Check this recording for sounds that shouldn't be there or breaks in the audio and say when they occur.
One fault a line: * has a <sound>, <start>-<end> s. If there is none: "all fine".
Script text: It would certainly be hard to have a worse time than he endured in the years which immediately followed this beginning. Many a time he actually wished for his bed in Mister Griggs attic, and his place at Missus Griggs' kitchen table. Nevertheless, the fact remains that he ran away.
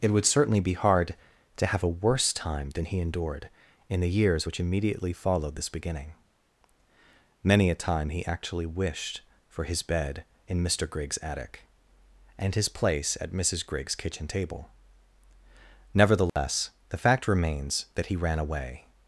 * has a dropout, 16.3-16.4 s